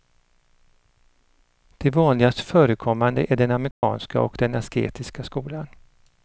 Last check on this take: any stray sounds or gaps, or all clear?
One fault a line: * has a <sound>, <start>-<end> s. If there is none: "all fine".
* has a dropout, 3.7-3.8 s